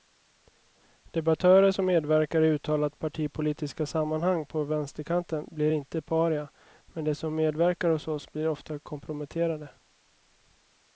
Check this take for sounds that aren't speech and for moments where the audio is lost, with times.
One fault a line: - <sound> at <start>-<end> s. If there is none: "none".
none